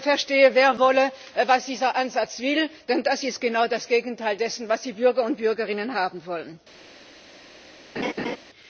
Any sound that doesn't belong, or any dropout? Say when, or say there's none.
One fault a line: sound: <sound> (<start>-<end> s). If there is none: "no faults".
sound: laugh (8.0-8.4 s)